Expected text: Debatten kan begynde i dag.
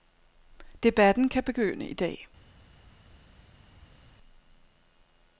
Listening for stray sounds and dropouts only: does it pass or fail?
pass